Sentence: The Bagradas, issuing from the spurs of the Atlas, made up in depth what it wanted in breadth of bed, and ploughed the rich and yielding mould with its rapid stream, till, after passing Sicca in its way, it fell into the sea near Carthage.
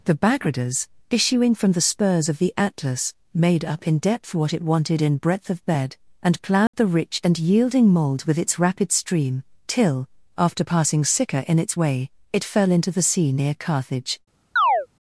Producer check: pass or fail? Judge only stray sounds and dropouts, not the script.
fail